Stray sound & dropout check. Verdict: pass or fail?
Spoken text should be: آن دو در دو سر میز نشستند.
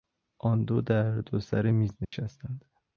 fail